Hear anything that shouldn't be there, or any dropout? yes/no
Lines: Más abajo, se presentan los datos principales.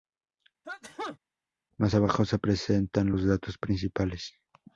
yes